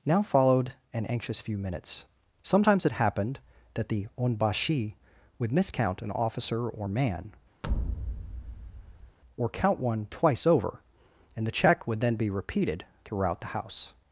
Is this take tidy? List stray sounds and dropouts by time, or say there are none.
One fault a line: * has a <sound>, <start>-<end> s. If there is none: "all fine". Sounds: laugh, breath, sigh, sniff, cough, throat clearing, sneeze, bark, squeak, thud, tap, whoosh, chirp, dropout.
* has a thud, 7.6-9.2 s